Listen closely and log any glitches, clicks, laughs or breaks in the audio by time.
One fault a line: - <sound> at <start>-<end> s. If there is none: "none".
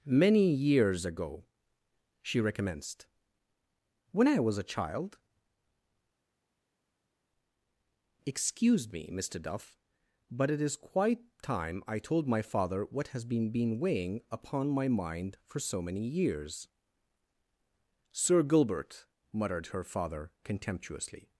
none